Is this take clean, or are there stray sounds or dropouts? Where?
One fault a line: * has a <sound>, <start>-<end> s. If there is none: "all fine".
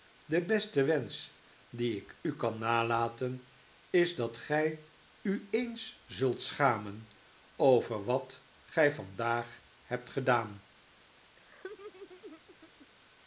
* has a laugh, 11.4-12.9 s